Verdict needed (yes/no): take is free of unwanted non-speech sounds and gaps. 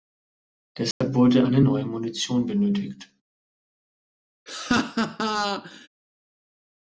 no